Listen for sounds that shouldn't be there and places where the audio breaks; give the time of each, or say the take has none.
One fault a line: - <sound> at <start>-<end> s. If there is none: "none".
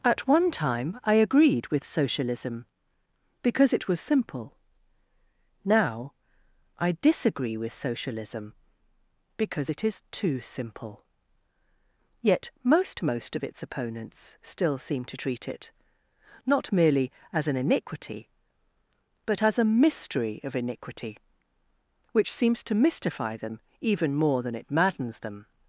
none